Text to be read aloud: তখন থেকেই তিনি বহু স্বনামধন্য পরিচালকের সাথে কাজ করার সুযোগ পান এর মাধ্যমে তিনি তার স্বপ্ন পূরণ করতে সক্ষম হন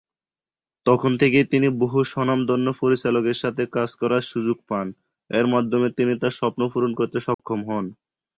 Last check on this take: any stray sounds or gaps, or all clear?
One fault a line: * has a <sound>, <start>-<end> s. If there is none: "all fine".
* has a dropout, 7.3-7.4 s